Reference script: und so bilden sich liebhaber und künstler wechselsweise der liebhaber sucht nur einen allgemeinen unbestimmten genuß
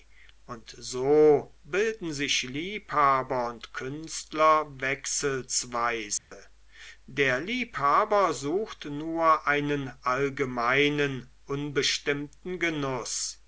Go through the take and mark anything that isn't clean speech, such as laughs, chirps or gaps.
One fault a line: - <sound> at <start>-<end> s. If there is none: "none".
- dropout at 6.2-6.3 s